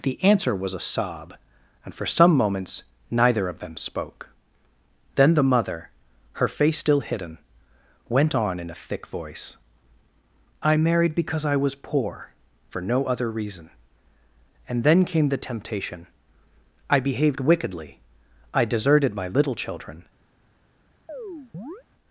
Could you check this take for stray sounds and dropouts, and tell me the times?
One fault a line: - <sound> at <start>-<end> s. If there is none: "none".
- chirp at 21.1-21.8 s